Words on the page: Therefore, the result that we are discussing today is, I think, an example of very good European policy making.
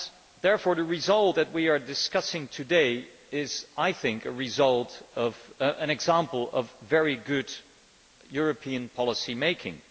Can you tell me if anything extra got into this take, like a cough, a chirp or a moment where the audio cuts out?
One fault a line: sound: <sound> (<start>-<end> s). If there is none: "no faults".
no faults